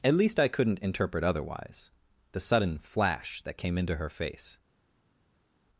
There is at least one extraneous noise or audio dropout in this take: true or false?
false